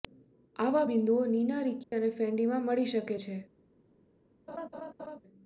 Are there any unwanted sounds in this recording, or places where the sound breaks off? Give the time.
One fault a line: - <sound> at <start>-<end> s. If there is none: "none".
- dropout at 1.8-1.9 s
- laugh at 4.5-5.2 s